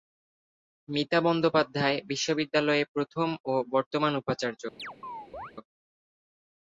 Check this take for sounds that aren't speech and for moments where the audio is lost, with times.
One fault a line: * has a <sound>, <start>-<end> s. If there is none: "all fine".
* has a chirp, 4.8-5.5 s